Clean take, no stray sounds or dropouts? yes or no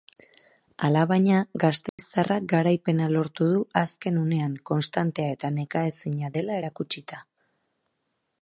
no